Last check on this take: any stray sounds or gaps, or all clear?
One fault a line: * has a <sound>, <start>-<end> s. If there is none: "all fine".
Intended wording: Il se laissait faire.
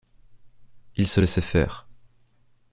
all fine